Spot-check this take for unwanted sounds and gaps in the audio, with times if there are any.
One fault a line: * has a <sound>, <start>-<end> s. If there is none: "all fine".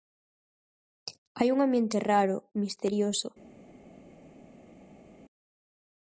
all fine